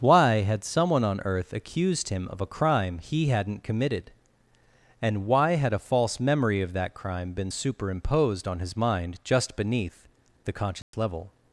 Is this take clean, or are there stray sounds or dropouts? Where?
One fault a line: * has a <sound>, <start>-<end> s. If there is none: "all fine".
* has a dropout, 10.8-10.9 s